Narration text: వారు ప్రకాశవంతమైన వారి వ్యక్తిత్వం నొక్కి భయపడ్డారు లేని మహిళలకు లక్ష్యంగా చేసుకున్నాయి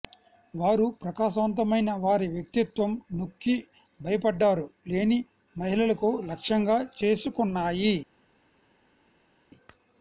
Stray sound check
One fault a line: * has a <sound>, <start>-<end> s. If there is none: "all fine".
all fine